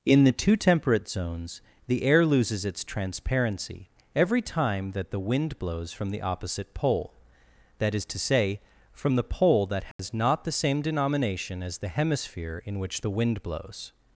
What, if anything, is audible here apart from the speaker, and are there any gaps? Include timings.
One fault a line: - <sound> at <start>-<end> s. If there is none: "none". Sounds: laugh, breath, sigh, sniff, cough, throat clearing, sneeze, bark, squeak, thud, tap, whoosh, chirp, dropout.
- dropout at 9.9-10.0 s